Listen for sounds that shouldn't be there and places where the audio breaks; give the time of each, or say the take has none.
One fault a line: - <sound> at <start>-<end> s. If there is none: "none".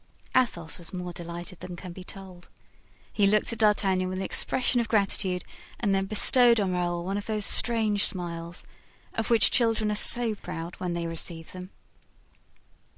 - dropout at 10.4-10.4 s